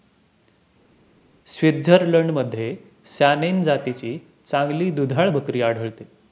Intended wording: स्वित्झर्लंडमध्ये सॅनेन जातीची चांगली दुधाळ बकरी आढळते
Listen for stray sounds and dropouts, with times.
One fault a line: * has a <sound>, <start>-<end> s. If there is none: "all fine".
all fine